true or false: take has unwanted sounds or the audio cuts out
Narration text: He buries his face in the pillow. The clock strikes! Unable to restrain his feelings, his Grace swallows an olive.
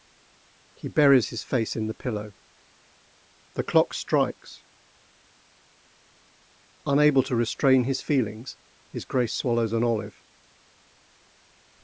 false